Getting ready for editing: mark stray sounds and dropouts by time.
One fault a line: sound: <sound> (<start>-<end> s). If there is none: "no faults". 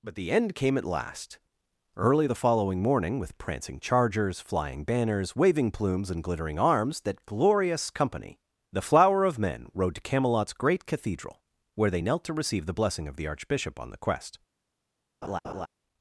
sound: laugh (15.2-15.7 s)